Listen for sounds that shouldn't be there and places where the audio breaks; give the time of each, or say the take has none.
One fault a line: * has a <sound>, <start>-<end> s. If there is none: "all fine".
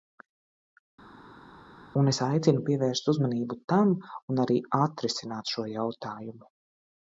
all fine